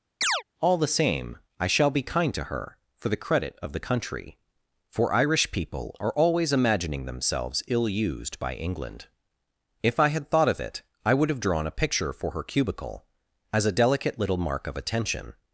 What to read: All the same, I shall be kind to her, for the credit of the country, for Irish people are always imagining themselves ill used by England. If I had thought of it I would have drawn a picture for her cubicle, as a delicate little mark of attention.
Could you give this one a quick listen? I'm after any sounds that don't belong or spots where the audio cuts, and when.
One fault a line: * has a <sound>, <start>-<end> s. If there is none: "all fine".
* has a chirp, 0.2-0.4 s